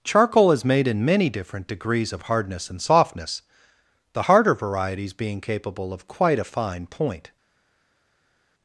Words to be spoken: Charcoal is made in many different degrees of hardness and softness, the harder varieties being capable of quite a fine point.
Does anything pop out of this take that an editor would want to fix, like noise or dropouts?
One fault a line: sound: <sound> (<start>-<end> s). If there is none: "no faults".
no faults